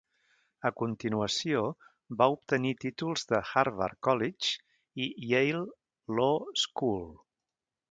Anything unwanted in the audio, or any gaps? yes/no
no